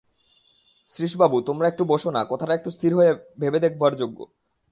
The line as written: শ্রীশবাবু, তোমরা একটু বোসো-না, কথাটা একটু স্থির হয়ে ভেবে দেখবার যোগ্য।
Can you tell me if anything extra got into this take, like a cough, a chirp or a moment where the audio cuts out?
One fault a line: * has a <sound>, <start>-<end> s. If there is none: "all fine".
all fine